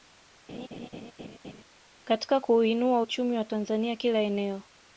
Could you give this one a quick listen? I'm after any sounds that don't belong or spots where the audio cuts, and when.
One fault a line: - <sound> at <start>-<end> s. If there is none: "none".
- laugh at 0.5-1.6 s